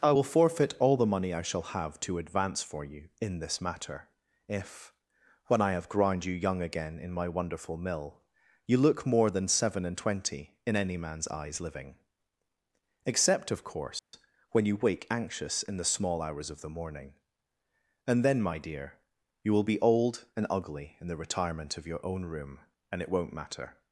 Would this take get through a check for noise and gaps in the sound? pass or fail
fail